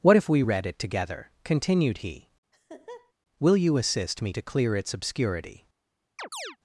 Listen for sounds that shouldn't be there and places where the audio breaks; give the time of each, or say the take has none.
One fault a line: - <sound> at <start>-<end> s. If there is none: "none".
- laugh at 2.5-3.1 s
- chirp at 6.2-6.6 s